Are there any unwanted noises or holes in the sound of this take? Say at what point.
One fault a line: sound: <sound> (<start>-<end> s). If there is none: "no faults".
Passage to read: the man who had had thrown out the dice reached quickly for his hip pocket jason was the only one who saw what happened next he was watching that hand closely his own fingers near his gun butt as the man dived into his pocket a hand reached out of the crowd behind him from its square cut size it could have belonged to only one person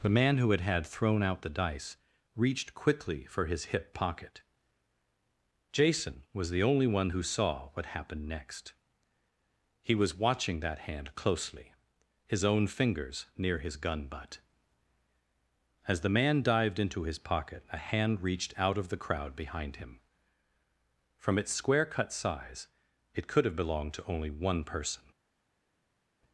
no faults